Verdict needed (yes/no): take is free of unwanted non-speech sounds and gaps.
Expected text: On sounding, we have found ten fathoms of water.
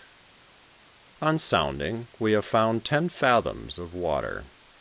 yes